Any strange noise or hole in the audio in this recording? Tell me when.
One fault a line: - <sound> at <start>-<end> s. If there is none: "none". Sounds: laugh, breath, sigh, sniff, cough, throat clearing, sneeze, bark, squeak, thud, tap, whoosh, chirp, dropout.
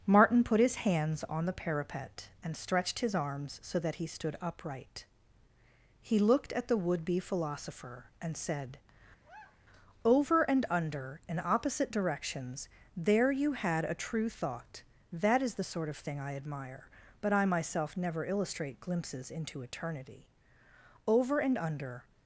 - sigh at 9.2-9.7 s